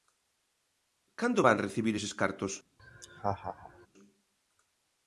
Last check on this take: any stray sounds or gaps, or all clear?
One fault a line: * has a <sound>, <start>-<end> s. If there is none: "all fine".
* has a laugh, 2.8-3.9 s